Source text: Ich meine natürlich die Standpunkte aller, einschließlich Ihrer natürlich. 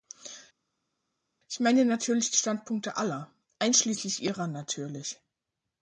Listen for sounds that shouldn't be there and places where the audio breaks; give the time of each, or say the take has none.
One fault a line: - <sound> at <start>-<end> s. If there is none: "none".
none